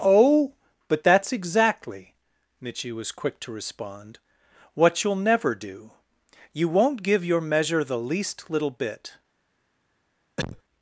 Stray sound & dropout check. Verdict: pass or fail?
fail